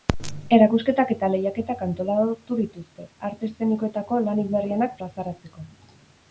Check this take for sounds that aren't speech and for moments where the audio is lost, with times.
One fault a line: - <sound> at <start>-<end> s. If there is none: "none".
none